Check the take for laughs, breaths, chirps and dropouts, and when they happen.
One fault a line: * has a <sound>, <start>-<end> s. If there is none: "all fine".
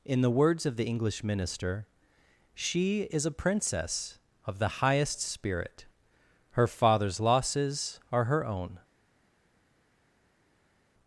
all fine